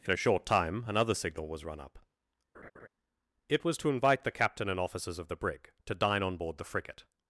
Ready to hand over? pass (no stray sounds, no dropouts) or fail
fail